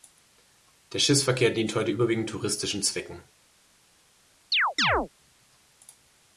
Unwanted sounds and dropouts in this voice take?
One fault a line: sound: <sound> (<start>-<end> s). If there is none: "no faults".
sound: chirp (4.5-5.1 s)